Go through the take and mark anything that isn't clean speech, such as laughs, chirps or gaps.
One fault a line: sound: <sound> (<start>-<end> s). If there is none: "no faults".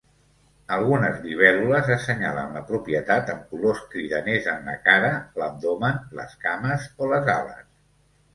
no faults